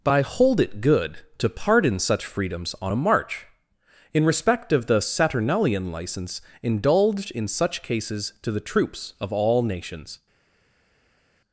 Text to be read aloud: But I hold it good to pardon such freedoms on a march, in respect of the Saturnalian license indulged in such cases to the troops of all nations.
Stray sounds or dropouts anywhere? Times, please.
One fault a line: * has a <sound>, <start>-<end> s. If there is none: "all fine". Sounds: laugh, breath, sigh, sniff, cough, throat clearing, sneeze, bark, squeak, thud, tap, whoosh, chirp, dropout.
all fine